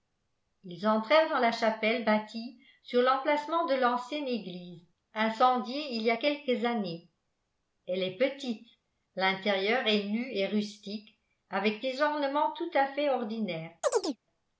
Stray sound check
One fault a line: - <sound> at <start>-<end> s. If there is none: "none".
- chirp at 13.8-14.2 s